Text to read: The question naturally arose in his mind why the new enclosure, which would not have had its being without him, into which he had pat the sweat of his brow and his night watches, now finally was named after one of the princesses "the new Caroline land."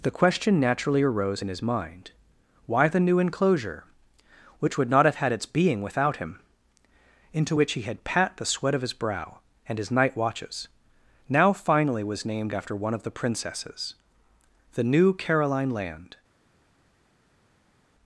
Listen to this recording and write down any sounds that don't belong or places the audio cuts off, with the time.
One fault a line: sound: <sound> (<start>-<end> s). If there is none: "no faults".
no faults